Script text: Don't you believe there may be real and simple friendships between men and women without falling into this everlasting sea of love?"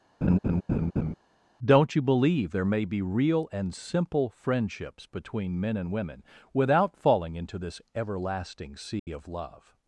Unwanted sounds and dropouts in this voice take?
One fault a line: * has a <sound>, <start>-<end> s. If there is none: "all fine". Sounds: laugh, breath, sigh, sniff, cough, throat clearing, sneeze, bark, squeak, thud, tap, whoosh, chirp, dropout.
* has a laugh, 0.2-1.1 s
* has a dropout, 9.0-9.1 s